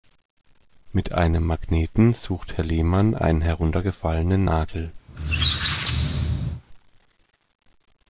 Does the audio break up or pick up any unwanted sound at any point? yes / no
yes